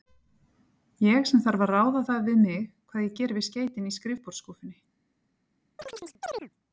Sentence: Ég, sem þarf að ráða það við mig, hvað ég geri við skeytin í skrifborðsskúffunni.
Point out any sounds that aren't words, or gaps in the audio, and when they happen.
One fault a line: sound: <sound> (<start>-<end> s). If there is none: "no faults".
sound: chirp (5.8-6.5 s)